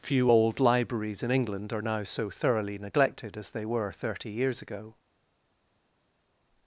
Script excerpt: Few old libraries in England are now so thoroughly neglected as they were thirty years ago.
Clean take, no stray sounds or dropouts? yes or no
yes